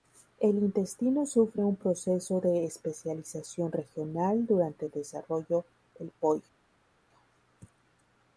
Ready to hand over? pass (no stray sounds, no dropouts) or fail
pass